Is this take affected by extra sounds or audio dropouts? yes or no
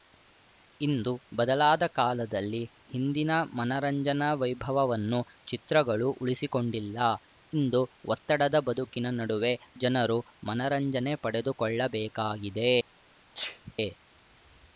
yes